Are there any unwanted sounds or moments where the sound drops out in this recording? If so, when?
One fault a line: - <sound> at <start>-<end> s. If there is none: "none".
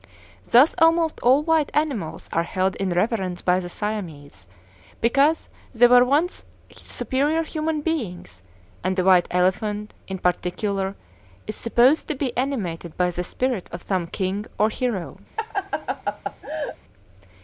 - laugh at 15.4-16.8 s